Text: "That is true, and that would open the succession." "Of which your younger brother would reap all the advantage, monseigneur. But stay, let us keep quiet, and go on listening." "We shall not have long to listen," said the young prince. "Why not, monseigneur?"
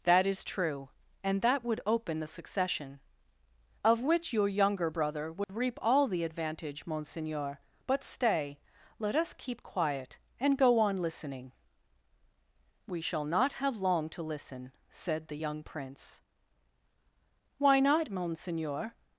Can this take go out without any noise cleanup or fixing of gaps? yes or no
no